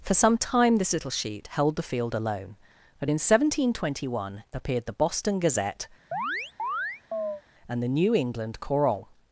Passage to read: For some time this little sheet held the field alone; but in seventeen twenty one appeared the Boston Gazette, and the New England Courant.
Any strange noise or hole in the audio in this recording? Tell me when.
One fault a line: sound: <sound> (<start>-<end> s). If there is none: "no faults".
sound: chirp (6.1-7.4 s)